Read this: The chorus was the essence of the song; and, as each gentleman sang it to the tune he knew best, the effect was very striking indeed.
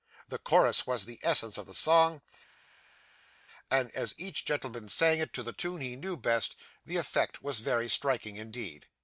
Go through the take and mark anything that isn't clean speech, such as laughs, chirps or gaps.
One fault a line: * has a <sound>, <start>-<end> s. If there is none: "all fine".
all fine